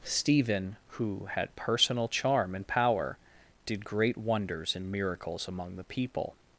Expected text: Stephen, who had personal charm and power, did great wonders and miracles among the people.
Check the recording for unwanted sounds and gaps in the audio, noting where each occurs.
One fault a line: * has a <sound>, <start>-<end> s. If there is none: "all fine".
all fine